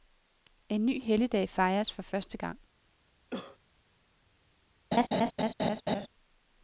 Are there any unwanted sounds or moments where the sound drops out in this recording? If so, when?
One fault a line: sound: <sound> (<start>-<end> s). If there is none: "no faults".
sound: cough (3.3-3.6 s)
sound: laugh (4.9-6.1 s)